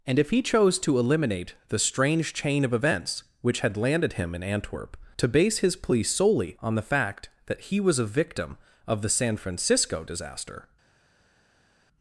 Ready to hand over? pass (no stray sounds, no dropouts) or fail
pass